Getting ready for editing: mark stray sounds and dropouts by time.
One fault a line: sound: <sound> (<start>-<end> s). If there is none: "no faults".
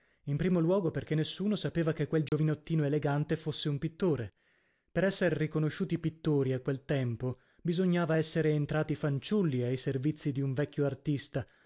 sound: dropout (2.3-2.3 s)